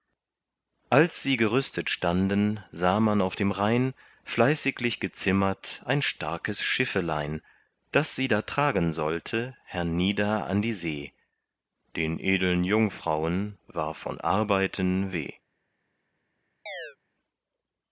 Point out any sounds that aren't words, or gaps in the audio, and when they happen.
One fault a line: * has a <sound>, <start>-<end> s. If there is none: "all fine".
* has a chirp, 16.7-17.0 s